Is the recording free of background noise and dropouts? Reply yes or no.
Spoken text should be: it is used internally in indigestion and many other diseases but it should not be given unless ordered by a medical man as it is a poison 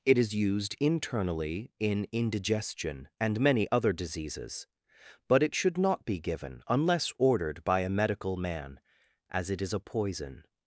yes